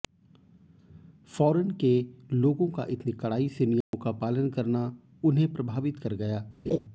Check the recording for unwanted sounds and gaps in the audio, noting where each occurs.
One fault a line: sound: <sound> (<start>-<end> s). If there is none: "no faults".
sound: dropout (3.8-3.9 s)
sound: laugh (6.7-6.8 s)